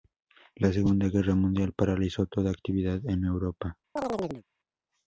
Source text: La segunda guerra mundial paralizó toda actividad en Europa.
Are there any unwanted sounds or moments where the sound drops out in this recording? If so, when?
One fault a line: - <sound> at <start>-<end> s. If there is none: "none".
- chirp at 4.0-4.4 s